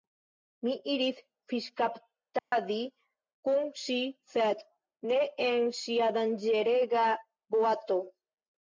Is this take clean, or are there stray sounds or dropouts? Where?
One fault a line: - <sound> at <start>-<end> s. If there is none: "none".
- dropout at 2.4-2.5 s